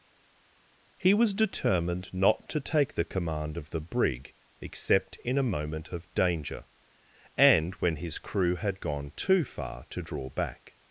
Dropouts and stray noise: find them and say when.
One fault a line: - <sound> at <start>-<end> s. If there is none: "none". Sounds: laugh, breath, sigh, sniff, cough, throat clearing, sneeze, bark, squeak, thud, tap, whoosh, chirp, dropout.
none